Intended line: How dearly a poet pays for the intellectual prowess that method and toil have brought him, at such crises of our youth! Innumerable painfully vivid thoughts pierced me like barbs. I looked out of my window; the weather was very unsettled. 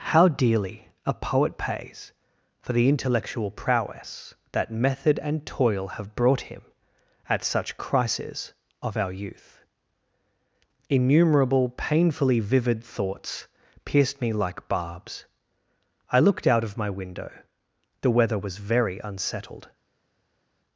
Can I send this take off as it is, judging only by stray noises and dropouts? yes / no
yes